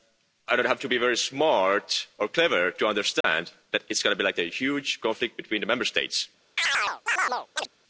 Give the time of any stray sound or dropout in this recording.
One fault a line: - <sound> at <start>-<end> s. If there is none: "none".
- dropout at 3.2-3.2 s
- chirp at 6.6-7.7 s